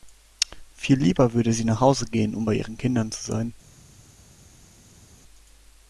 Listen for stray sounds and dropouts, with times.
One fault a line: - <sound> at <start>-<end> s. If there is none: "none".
none